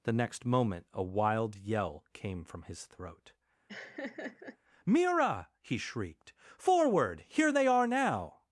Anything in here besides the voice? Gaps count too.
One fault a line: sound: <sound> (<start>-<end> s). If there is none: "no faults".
sound: laugh (3.7-4.6 s)